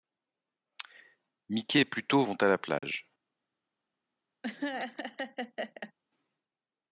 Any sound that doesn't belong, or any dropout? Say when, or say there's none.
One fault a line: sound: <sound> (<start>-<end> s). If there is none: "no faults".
sound: dropout (2.8-2.8 s)
sound: laugh (4.4-5.9 s)